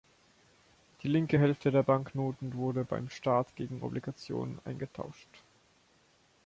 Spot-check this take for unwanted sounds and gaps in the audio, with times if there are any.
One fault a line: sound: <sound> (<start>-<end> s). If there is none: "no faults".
no faults